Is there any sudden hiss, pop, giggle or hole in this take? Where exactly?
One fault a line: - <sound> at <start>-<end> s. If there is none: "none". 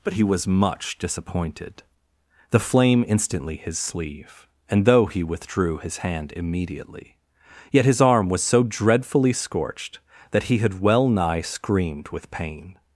none